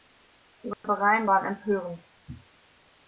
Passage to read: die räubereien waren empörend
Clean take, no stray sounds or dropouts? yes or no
no